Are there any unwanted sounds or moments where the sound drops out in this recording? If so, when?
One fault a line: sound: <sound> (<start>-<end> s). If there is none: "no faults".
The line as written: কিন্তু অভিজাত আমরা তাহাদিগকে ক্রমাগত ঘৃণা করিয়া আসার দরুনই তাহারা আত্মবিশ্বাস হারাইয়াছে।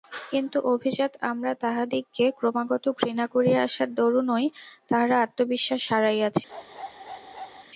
sound: bark (6.5-7.7 s)